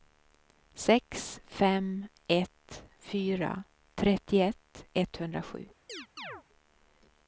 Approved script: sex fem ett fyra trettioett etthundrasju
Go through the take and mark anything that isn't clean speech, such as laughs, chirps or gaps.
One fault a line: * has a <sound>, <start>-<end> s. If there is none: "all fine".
* has a chirp, 5.9-6.4 s